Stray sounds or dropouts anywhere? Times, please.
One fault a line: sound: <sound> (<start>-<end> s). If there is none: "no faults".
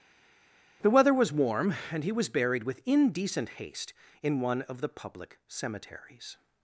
no faults